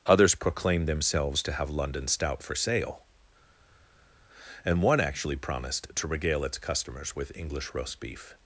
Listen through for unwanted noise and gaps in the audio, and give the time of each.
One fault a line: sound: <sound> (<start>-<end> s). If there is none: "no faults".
no faults